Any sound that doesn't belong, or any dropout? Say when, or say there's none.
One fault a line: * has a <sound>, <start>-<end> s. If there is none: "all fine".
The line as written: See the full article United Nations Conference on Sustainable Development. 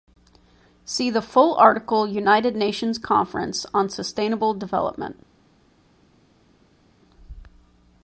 all fine